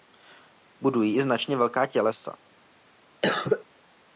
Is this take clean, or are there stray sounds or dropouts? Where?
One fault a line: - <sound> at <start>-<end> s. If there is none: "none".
- cough at 3.2-3.6 s